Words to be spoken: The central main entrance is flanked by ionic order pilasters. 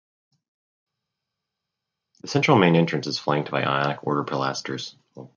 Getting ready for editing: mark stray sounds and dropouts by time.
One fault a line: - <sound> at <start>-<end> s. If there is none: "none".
none